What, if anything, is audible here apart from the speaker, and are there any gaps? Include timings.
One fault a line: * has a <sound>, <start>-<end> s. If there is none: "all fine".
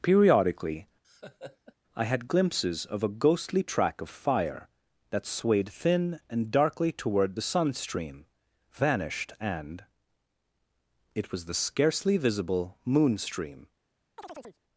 * has a laugh, 1.0-1.7 s
* has a chirp, 14.2-14.6 s